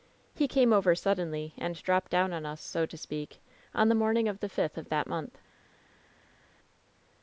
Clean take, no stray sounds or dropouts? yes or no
yes